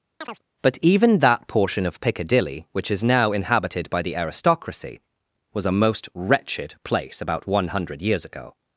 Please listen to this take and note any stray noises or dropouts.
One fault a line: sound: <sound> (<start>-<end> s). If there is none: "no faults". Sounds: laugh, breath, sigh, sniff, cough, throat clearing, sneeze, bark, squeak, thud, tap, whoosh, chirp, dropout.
sound: chirp (0.2-0.4 s)